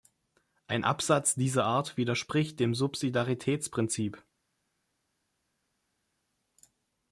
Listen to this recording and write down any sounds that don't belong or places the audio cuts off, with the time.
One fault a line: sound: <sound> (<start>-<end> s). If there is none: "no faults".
no faults